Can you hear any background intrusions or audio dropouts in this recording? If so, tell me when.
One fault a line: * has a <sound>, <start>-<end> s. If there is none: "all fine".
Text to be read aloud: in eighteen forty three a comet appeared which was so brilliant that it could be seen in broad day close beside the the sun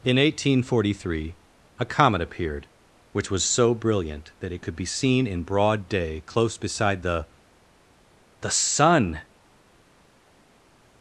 all fine